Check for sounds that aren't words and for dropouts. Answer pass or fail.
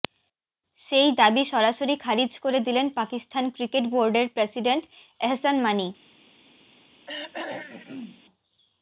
fail